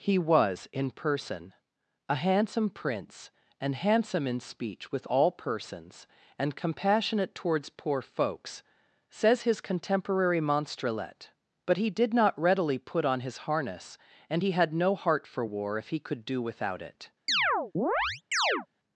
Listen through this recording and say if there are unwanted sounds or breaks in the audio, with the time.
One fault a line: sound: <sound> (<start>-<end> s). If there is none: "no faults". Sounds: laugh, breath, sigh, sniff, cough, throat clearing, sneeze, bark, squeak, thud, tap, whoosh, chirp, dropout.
sound: chirp (17.3-18.7 s)